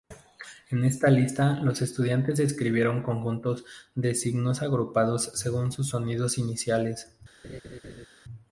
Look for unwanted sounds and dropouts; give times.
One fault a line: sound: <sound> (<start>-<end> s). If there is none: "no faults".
sound: laugh (7.4-8.1 s)